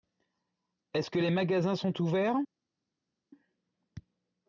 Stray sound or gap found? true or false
false